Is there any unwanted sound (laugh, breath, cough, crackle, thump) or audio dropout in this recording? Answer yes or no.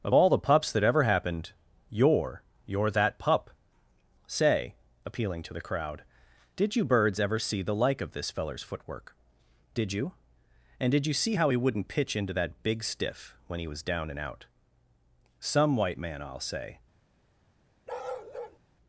yes